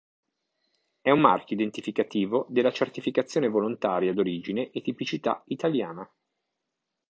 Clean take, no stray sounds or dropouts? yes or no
yes